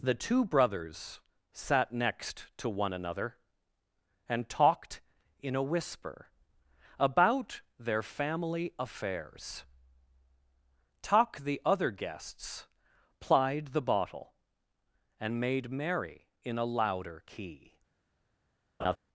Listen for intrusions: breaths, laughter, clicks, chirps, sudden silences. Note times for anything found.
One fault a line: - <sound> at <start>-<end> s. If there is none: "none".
- laugh at 18.8-19.0 s